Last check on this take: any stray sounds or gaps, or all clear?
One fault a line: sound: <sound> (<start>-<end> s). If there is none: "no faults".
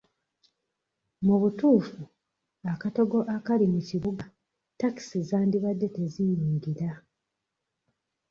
no faults